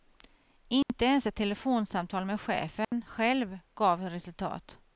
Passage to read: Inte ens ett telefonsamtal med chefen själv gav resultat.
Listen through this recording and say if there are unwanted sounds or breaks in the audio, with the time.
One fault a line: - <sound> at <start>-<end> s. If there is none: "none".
- dropout at 0.8-0.9 s
- dropout at 2.8-2.9 s